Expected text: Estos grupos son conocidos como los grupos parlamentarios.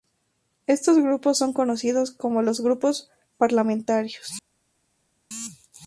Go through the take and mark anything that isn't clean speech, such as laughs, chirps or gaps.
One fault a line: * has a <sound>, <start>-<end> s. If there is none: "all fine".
all fine